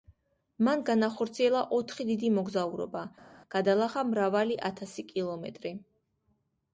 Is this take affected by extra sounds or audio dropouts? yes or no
no